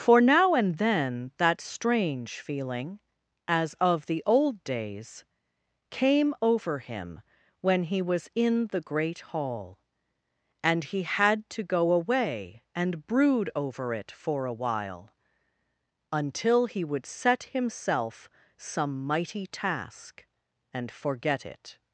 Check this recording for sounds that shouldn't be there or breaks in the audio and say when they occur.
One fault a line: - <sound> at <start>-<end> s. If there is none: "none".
none